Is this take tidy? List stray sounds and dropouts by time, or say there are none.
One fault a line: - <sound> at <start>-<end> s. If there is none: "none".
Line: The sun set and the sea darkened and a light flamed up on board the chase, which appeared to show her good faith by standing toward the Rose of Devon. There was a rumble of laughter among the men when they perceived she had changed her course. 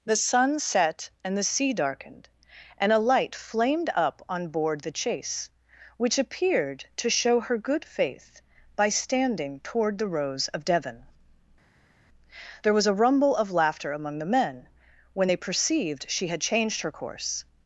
none